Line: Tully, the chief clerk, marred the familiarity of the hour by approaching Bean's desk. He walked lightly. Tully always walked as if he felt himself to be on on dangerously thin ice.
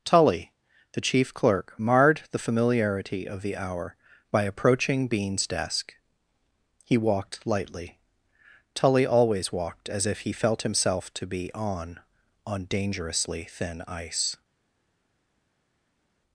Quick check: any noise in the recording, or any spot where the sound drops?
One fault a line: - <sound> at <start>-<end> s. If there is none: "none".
none